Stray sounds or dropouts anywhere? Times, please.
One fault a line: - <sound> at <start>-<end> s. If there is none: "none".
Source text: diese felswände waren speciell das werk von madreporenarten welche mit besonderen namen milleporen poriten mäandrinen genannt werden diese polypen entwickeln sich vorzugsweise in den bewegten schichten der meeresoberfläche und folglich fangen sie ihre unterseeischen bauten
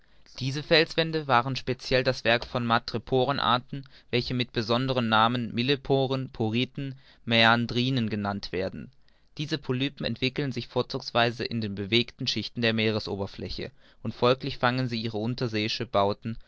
none